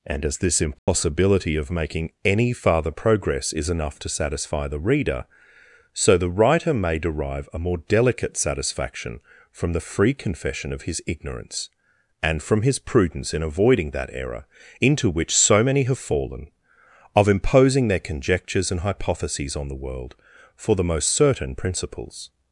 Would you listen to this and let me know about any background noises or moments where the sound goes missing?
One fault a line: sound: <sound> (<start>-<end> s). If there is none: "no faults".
sound: dropout (0.8-0.9 s)